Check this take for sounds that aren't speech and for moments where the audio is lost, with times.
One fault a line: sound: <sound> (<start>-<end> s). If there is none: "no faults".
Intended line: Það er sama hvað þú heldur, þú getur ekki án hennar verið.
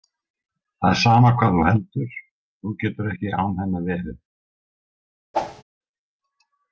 sound: whoosh (5.3-5.6 s)